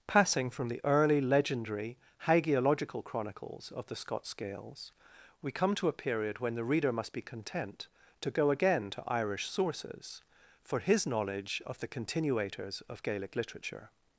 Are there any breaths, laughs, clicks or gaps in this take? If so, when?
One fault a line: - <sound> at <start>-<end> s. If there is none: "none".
none